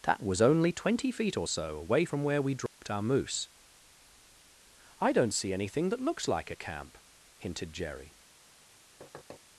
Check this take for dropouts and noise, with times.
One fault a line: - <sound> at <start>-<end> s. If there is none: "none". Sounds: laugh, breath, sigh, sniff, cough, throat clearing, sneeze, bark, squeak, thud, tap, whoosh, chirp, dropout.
- dropout at 2.7-2.8 s
- thud at 9.0-9.4 s